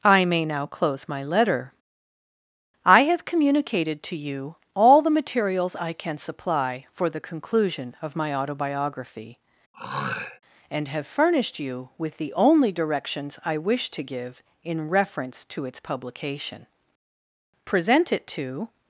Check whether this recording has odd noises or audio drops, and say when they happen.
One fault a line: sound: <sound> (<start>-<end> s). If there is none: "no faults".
sound: throat clearing (9.7-10.4 s)